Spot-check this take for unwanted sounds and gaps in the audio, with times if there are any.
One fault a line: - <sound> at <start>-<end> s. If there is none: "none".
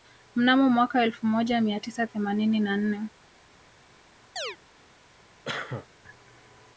- chirp at 4.4-4.6 s
- cough at 5.5-5.9 s